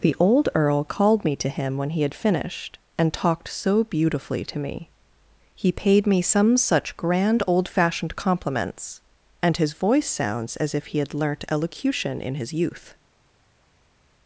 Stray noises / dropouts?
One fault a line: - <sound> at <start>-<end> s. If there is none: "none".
none